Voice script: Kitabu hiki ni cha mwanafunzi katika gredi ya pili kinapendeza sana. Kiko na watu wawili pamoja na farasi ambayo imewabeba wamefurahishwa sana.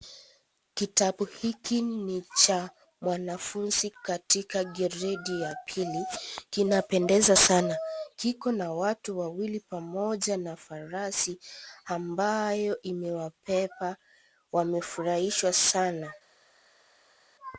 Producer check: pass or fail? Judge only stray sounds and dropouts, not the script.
pass